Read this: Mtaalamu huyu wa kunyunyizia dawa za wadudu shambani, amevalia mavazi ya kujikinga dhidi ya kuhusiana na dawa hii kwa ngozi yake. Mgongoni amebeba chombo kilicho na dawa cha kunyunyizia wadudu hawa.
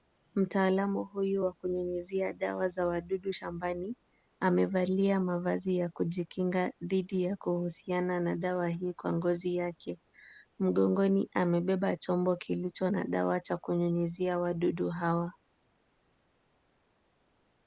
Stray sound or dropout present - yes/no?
no